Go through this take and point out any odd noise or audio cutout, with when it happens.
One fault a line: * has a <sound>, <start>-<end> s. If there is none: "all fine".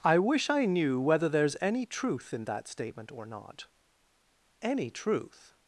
all fine